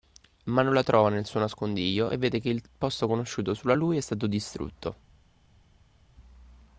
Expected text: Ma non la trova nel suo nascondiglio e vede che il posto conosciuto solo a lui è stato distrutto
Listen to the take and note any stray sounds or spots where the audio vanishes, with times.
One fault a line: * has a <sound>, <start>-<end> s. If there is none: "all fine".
all fine